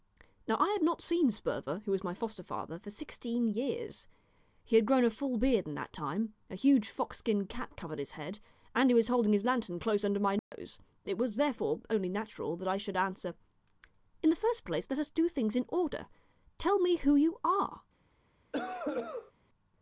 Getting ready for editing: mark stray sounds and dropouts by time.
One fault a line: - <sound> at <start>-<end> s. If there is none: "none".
- dropout at 10.4-10.5 s
- cough at 18.5-19.3 s